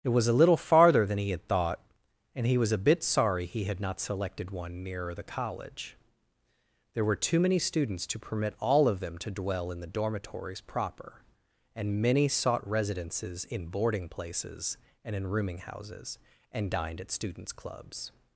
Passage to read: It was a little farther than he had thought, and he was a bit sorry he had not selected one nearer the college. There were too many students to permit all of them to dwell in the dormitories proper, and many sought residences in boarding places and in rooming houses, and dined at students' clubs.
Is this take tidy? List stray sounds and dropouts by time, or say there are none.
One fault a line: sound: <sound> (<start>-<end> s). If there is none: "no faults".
no faults